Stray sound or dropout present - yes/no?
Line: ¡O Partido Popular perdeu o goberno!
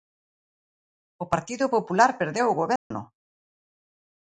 yes